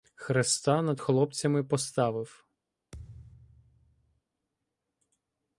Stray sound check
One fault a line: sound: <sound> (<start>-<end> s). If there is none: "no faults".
sound: thud (2.9-4.2 s)